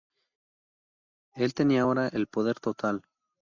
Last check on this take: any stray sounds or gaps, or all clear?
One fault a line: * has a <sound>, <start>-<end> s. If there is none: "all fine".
all fine